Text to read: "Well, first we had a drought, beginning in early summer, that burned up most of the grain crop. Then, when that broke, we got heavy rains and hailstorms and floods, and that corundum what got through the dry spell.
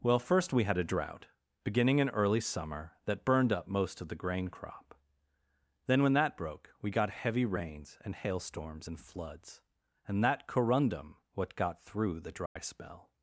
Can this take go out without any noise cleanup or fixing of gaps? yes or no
no